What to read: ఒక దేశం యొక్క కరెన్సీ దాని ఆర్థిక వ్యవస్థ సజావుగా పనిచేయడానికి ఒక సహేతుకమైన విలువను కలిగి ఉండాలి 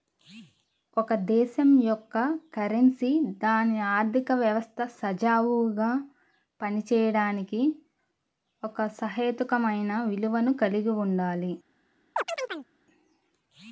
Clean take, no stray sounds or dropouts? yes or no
no